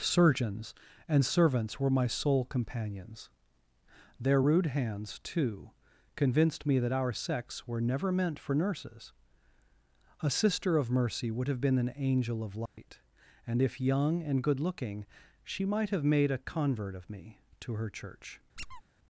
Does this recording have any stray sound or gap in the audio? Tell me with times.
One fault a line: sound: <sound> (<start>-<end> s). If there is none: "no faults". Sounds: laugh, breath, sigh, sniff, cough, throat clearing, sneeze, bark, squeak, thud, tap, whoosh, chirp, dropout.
sound: dropout (12.7-12.8 s)
sound: squeak (18.6-18.8 s)